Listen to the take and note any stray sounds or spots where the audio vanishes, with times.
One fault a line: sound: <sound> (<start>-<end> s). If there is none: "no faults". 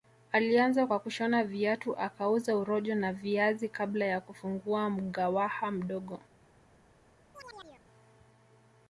sound: chirp (7.3-7.8 s)